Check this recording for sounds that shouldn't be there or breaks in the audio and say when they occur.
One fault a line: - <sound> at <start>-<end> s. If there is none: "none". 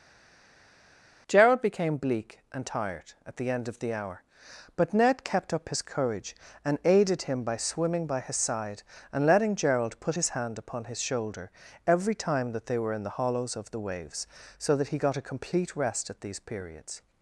none